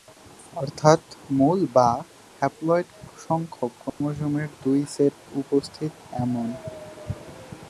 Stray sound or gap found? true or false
true